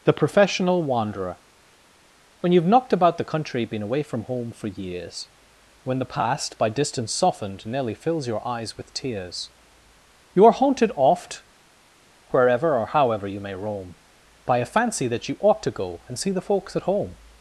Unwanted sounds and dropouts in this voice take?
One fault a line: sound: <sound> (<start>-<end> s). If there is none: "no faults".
no faults